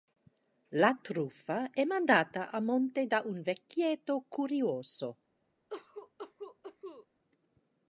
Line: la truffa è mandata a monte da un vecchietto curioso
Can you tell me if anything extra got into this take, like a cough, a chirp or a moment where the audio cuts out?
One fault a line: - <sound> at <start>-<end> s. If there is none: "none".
- cough at 5.7-7.1 s